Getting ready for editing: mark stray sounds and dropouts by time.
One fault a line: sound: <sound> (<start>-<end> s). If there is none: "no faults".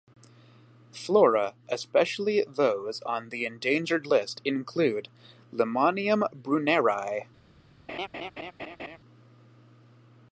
sound: laugh (7.9-9.0 s)